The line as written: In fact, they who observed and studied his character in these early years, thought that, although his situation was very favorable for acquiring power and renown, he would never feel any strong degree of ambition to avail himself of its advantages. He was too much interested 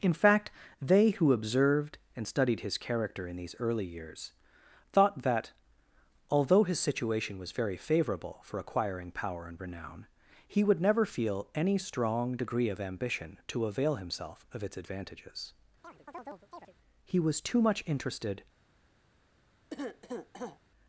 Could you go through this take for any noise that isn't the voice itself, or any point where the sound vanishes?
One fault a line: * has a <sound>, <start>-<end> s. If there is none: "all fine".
* has a chirp, 15.8-16.7 s
* has a cough, 19.7-20.6 s